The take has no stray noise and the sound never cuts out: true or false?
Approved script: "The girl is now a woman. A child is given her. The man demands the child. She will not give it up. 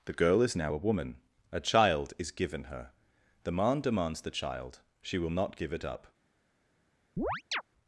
false